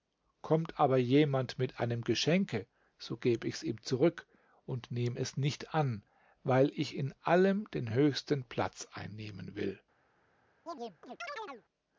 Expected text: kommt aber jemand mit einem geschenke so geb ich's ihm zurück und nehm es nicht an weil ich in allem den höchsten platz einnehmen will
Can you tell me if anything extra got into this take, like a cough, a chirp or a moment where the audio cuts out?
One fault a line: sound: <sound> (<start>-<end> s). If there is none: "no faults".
sound: chirp (10.7-11.6 s)